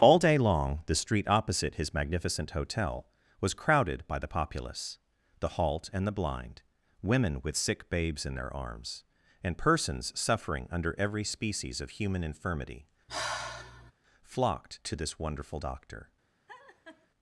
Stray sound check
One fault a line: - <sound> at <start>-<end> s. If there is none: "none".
- sigh at 13.1-13.9 s
- laugh at 16.5-17.1 s